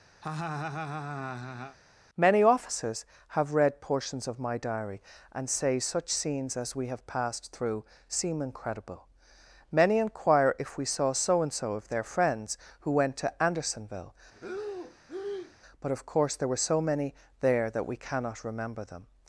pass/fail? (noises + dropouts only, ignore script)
fail